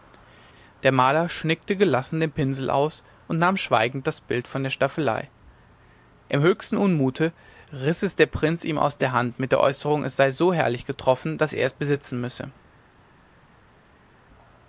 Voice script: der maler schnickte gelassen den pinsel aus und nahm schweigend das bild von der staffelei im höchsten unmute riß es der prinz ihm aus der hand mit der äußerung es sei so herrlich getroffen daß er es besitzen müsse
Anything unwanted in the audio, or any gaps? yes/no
no